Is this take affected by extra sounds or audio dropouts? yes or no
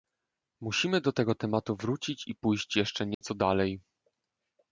yes